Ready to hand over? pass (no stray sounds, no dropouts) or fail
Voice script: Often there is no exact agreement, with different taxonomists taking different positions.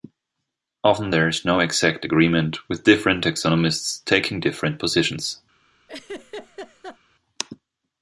fail